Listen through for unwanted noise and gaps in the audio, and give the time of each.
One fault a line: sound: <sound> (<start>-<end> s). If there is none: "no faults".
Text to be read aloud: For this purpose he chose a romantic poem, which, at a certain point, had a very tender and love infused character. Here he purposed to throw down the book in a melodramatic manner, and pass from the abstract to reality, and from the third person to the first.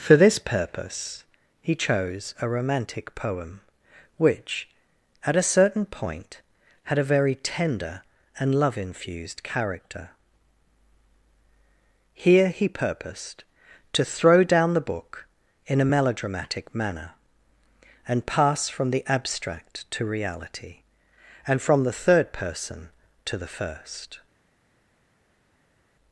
no faults